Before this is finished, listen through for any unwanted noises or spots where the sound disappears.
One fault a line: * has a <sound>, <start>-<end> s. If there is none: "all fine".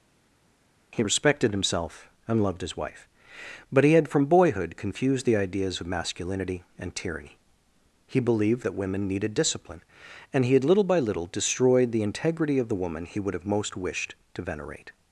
all fine